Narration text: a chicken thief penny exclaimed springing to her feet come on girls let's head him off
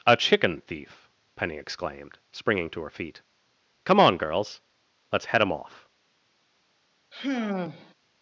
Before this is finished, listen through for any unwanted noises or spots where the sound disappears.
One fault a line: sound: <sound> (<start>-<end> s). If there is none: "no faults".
sound: sigh (7.1-7.9 s)